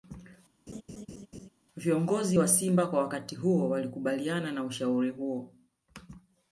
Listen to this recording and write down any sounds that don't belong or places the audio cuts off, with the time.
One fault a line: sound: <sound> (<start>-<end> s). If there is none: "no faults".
sound: laugh (0.7-1.5 s)